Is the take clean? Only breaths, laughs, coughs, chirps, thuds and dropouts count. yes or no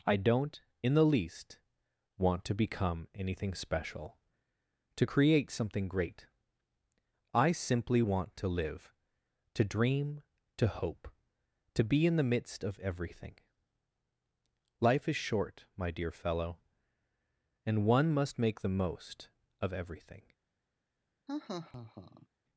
no